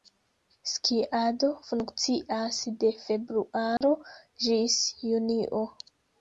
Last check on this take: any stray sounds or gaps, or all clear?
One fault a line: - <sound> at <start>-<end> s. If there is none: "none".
- dropout at 3.8-3.8 s